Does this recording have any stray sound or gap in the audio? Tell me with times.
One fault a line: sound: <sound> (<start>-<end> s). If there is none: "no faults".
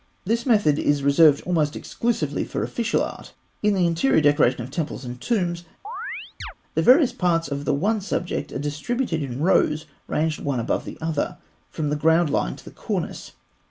sound: chirp (5.8-6.5 s)